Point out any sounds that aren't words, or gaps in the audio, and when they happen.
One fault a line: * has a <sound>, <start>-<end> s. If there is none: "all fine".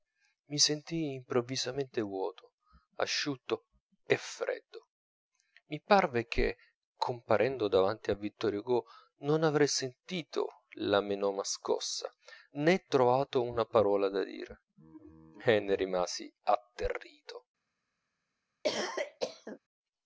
* has a cough, 18.6-19.6 s